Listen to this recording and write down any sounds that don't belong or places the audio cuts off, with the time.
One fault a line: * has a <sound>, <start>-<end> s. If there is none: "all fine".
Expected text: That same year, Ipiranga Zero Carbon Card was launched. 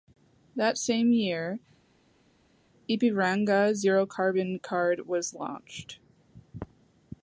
all fine